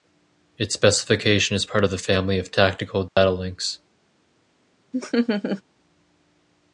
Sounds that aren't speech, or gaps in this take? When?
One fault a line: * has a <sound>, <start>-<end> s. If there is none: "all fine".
* has a dropout, 3.1-3.2 s
* has a laugh, 4.9-5.6 s